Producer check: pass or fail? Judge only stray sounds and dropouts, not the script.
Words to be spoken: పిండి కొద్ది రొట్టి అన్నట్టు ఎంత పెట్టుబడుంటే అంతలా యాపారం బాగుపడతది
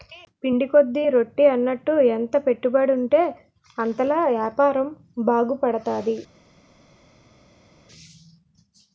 pass